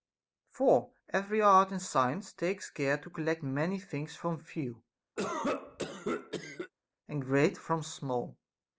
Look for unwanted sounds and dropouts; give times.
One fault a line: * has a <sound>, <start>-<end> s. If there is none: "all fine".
* has a cough, 5.2-6.7 s